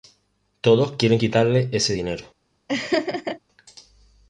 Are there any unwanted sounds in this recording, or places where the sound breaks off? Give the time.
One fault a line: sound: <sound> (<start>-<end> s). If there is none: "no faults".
sound: laugh (2.7-3.4 s)